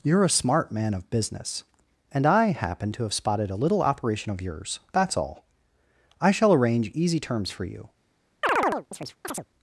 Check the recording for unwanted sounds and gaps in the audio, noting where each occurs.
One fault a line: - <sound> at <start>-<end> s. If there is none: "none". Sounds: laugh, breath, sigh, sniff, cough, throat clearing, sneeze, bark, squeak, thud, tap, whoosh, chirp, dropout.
- chirp at 8.4-9.5 s